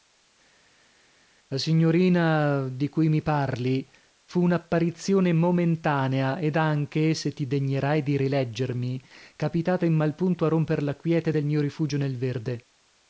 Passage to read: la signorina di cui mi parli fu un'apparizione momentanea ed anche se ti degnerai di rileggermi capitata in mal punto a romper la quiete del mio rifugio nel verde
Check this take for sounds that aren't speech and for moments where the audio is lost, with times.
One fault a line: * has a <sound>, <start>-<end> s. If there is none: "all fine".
all fine